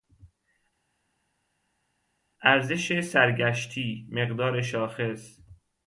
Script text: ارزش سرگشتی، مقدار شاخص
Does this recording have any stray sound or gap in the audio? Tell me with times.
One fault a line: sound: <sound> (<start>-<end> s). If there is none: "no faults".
no faults